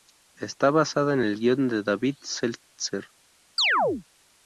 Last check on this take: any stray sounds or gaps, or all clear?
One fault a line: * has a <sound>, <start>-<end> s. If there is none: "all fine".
* has a chirp, 3.6-4.0 s